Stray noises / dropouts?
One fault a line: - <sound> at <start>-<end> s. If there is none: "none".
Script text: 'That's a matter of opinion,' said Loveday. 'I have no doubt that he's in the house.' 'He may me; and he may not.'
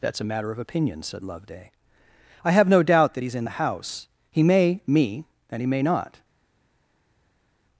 none